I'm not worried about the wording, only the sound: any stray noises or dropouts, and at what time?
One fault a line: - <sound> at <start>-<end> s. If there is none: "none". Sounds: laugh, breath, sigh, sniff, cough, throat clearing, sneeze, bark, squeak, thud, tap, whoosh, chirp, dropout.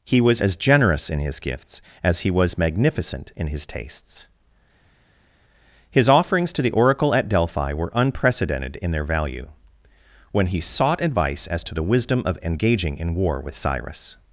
none